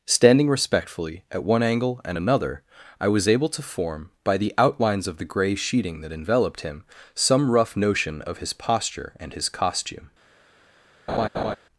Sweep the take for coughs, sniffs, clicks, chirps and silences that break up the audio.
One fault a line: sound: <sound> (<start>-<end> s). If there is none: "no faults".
sound: laugh (11.1-11.6 s)